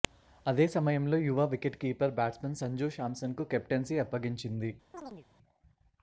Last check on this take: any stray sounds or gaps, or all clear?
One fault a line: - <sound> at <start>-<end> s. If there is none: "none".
- chirp at 4.9-5.3 s